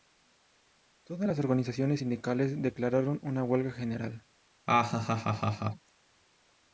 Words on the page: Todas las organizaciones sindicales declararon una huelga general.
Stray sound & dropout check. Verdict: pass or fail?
fail